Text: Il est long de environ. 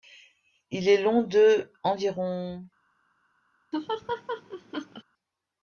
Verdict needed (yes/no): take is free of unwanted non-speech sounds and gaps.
no